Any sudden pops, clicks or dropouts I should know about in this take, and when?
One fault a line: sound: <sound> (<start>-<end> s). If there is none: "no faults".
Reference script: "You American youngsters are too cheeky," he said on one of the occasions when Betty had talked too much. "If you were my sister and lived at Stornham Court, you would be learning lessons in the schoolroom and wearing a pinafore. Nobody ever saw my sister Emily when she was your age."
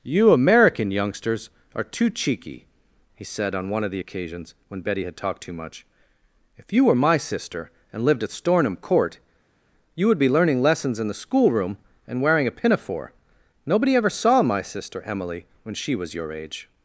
no faults